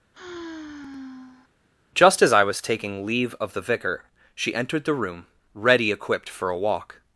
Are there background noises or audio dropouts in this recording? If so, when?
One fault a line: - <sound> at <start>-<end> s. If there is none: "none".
- sigh at 0.1-1.5 s